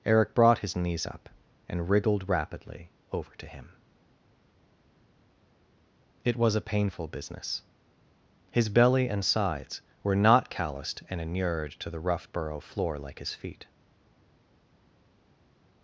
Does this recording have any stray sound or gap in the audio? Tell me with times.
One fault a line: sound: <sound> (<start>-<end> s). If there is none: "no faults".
no faults